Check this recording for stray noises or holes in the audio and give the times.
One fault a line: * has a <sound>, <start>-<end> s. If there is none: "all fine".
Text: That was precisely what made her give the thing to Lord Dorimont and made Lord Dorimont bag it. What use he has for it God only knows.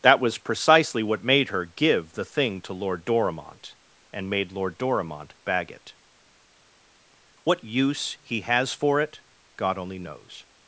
all fine